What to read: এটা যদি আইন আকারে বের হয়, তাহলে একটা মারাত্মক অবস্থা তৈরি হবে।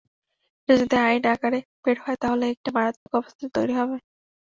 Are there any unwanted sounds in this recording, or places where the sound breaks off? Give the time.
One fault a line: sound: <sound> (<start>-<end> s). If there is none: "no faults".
sound: dropout (3.0-3.1 s)